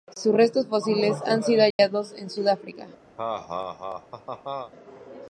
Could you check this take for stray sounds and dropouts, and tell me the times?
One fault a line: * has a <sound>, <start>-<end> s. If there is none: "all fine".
* has a dropout, 1.7-1.8 s
* has a laugh, 3.2-4.7 s